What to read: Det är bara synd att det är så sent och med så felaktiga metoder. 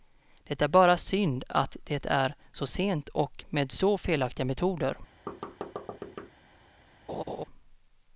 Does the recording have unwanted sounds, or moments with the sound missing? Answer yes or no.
yes